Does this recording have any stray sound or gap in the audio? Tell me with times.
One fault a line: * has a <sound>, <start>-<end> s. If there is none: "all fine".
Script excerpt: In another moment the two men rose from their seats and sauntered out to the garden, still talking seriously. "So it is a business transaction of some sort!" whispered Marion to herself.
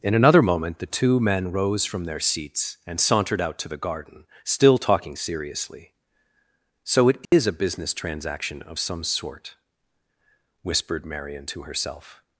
* has a dropout, 7.2-7.3 s